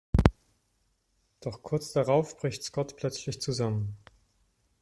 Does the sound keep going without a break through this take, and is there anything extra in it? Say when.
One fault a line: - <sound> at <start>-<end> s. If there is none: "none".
none